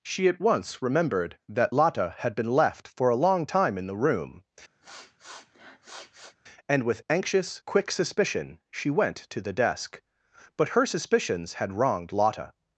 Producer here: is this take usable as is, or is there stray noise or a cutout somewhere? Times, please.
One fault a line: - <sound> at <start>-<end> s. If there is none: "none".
- sniff at 4.8-6.4 s